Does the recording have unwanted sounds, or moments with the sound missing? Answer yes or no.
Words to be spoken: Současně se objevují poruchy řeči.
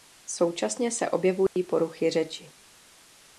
yes